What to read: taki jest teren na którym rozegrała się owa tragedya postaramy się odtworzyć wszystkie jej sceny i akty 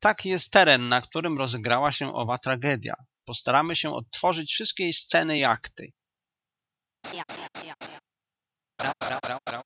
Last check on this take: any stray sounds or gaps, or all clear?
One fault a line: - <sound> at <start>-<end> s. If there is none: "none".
- laugh at 7.0-8.0 s
- laugh at 8.8-9.6 s